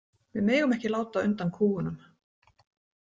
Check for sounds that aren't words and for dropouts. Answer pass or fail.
pass